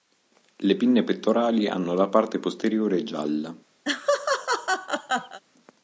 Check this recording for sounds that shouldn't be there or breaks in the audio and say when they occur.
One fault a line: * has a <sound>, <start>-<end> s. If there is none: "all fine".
* has a laugh, 3.9-5.4 s